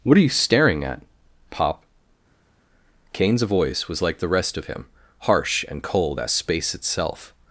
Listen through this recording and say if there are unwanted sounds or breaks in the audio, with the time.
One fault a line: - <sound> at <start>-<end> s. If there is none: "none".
none